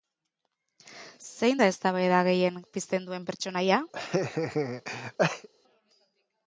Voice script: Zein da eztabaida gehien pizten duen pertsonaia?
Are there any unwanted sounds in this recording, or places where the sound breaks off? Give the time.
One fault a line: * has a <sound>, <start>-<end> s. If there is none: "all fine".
* has a laugh, 3.9-5.5 s